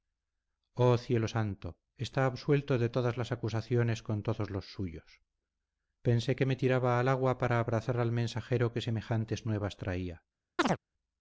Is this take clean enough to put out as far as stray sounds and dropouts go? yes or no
no